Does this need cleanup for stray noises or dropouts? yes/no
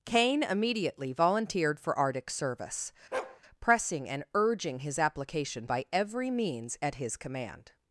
yes